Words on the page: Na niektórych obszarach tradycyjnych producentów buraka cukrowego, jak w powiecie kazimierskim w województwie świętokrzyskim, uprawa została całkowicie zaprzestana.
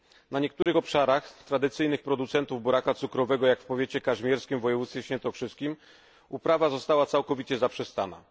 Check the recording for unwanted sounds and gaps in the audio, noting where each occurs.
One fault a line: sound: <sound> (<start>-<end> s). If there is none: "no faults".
sound: dropout (0.6-0.7 s)